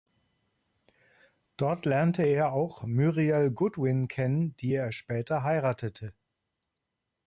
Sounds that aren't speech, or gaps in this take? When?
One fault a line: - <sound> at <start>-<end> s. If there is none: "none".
none